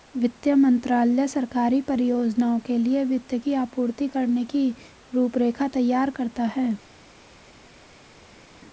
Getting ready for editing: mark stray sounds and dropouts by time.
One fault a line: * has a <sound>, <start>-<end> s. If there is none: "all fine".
all fine